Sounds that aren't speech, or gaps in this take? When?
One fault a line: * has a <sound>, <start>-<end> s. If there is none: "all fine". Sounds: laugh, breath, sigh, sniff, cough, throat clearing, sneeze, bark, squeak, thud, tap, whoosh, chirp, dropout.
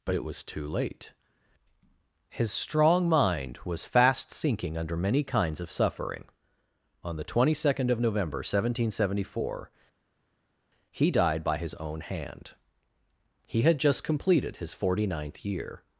all fine